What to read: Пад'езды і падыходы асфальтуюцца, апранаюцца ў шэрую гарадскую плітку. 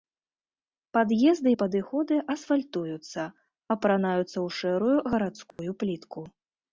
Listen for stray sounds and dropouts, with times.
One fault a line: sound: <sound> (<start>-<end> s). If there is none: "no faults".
sound: dropout (5.5-5.6 s)